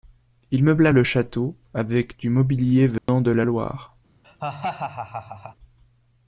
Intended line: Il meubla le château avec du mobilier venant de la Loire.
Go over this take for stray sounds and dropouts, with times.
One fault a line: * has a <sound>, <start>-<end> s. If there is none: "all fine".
* has a dropout, 3.0-3.1 s
* has a laugh, 4.2-5.6 s